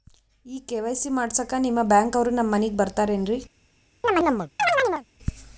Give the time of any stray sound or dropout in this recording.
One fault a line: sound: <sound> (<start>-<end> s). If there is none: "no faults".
sound: chirp (4.0-5.1 s)